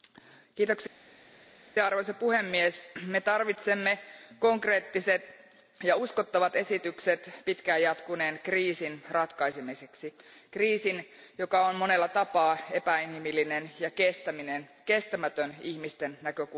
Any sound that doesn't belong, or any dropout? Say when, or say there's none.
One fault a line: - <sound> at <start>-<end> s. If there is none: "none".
none